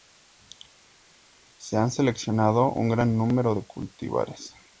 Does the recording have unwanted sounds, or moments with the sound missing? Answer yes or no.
no